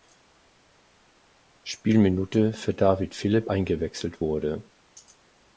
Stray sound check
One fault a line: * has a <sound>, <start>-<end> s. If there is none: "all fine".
all fine